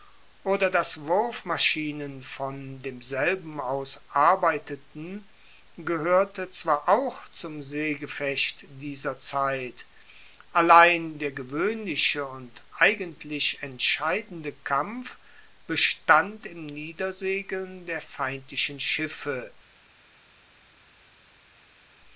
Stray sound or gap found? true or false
false